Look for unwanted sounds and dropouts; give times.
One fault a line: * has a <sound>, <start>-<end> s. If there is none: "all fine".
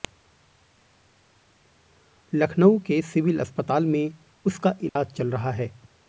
* has a dropout, 4.9-5.0 s